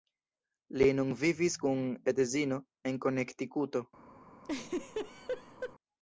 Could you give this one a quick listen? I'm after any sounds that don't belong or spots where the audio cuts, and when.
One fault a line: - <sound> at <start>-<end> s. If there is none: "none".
- laugh at 4.4-5.7 s